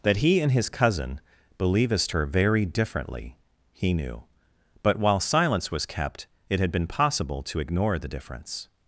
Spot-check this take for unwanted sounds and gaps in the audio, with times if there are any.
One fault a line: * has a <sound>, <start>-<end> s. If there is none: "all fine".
all fine